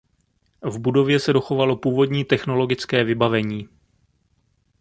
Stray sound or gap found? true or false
false